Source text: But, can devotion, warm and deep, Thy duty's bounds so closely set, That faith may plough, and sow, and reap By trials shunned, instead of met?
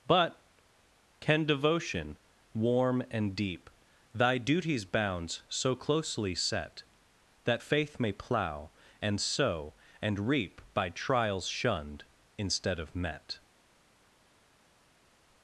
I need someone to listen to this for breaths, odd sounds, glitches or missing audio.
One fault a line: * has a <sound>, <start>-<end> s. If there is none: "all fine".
all fine